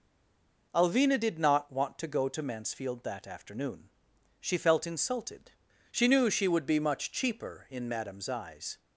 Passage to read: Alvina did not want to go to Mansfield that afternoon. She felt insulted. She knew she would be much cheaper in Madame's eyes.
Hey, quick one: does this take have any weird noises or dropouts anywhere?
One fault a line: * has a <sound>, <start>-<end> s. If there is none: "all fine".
all fine